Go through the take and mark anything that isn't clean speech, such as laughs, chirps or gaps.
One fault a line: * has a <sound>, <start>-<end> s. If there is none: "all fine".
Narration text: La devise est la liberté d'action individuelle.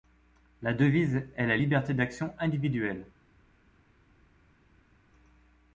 all fine